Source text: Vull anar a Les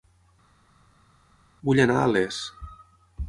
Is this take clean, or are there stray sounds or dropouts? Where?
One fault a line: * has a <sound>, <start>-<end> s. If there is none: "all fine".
all fine